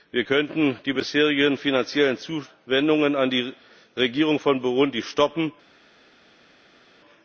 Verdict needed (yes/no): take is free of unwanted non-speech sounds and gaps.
yes